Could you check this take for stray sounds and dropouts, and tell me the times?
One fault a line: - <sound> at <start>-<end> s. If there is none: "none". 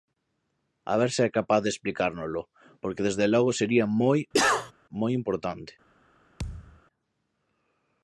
- cough at 4.3-4.7 s
- thud at 6.4-6.8 s